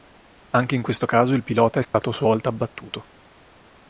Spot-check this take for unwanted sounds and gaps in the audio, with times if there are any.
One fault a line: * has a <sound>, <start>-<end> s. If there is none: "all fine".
* has a dropout, 1.8-1.9 s